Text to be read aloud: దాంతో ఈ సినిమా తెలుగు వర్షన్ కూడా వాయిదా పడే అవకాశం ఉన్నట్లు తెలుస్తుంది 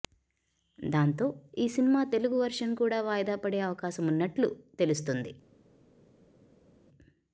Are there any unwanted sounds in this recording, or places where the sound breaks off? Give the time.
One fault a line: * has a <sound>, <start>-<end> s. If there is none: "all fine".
all fine